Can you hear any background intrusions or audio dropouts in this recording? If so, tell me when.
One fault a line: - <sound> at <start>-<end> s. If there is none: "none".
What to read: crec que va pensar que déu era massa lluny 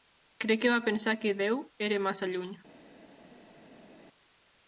none